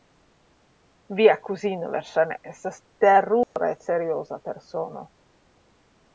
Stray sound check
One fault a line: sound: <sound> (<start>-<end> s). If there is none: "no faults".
sound: dropout (3.4-3.6 s)